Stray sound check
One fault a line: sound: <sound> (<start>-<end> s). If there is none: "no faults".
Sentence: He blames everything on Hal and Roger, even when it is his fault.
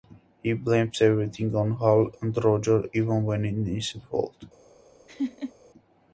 sound: laugh (5.1-5.5 s)